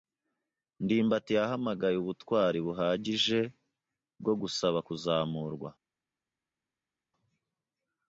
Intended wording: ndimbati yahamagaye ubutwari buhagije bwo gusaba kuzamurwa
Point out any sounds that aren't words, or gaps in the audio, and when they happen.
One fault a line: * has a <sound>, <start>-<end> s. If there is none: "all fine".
all fine